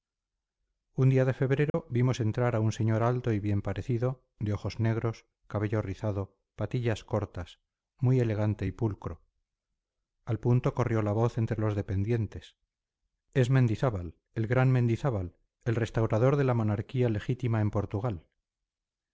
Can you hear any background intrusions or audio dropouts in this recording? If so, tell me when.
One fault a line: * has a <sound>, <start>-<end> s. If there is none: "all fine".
* has a dropout, 1.7-1.7 s